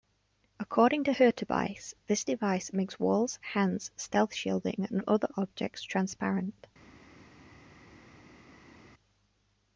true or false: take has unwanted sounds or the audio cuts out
false